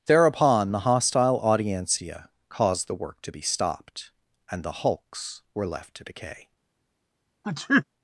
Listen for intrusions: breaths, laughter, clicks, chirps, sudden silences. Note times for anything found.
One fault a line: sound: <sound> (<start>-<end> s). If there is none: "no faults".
sound: sneeze (7.4-7.8 s)